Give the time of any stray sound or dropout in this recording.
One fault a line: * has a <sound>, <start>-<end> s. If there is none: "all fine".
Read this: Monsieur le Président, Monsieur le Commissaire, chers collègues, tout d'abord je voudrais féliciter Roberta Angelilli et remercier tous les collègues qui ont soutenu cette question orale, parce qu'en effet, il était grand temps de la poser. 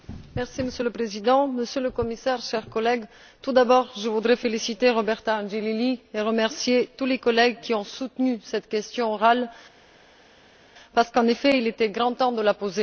all fine